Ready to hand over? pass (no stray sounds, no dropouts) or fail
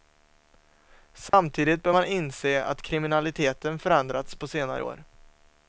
fail